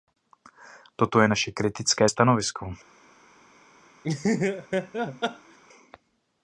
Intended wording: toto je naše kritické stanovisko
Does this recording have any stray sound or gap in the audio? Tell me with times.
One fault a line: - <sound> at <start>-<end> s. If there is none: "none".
- laugh at 4.0-5.6 s